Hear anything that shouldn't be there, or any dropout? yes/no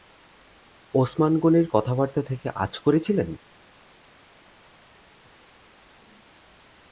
no